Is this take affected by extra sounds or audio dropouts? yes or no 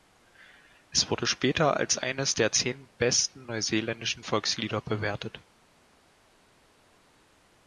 no